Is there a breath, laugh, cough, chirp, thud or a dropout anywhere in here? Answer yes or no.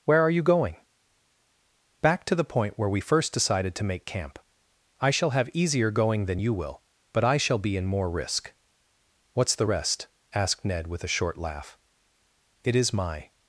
no